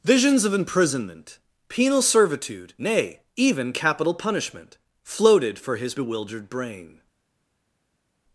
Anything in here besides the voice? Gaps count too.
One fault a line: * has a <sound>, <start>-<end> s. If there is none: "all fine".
all fine